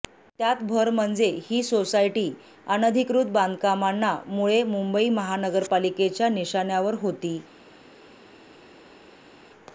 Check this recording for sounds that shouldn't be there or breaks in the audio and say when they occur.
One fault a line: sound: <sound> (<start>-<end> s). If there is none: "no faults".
no faults